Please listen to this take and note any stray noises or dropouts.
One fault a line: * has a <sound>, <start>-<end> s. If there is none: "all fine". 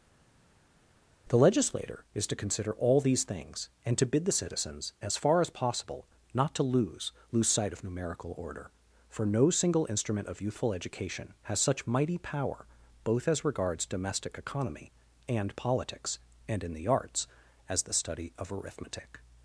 all fine